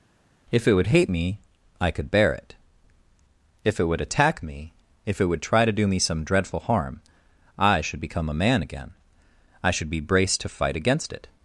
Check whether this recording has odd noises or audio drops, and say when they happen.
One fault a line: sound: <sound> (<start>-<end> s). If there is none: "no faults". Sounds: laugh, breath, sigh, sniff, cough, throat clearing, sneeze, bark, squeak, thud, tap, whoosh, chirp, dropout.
no faults